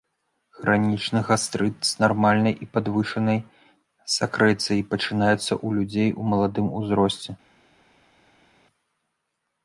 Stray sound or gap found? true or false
false